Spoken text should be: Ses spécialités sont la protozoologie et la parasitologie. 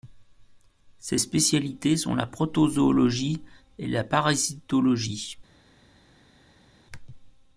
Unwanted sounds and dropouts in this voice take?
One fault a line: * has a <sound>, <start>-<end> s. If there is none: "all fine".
all fine